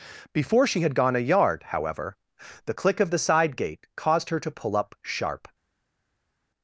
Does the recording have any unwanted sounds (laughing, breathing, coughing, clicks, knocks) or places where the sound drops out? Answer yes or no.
no